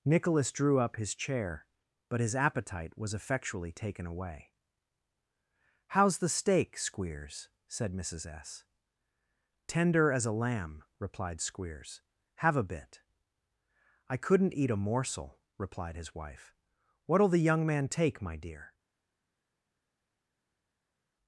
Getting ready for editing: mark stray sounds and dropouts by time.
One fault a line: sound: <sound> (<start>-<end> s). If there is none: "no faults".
no faults